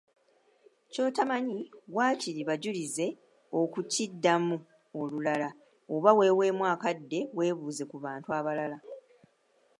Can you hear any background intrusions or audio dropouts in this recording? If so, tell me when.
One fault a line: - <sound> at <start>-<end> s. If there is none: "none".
none